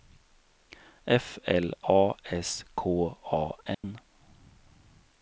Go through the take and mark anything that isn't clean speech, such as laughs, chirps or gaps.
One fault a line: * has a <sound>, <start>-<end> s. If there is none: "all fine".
* has a dropout, 3.7-3.8 s